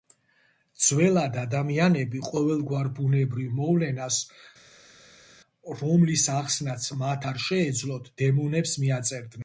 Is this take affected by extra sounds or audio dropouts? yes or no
no